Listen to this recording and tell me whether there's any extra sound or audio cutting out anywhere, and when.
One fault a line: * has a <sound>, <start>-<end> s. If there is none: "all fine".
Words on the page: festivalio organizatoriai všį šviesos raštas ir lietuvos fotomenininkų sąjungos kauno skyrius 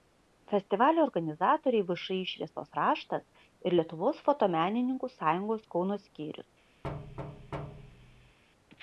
* has a thud, 6.8-8.4 s